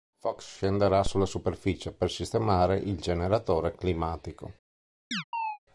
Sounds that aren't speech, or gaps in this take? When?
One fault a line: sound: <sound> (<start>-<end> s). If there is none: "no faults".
sound: chirp (5.1-5.6 s)